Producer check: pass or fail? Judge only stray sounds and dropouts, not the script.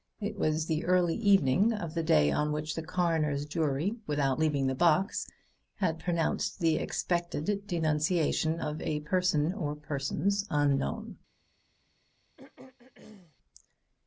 fail